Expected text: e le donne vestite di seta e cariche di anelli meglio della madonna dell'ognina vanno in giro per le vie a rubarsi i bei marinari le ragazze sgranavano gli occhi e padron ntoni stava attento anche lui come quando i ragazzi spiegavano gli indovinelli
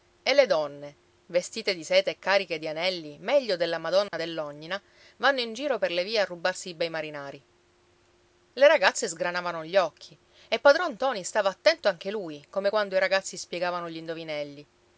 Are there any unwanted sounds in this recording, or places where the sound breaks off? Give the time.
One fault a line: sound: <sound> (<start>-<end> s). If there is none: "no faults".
sound: dropout (4.1-4.1 s)